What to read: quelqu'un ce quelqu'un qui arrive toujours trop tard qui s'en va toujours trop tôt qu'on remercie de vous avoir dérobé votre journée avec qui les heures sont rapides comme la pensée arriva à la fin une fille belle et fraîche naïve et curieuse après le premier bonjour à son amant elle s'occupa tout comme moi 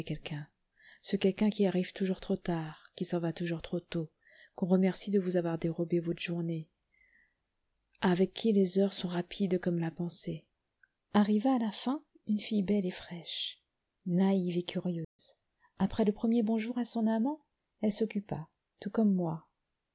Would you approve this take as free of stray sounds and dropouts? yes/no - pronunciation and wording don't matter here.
no